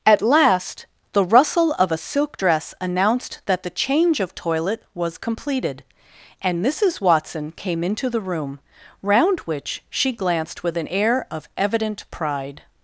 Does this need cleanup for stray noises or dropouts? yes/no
no